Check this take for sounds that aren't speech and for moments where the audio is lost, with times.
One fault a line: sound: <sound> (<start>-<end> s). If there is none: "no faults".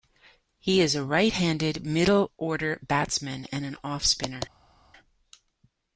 no faults